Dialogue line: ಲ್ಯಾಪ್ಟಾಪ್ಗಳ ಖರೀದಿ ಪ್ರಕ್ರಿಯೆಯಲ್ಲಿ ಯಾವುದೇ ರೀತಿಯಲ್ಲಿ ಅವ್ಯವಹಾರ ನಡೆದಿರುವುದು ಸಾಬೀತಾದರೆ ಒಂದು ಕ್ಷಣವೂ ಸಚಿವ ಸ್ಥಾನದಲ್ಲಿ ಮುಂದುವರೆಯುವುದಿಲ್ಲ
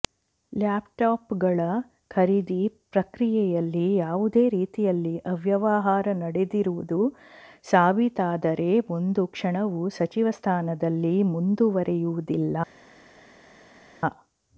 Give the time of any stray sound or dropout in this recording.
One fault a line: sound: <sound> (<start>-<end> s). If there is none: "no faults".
no faults